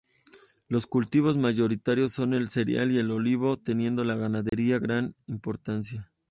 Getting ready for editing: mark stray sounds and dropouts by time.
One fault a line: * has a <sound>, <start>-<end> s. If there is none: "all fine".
* has a dropout, 4.5-4.5 s